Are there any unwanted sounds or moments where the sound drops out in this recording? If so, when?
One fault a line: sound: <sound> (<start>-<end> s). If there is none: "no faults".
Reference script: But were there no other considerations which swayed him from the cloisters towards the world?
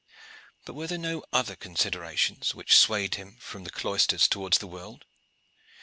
no faults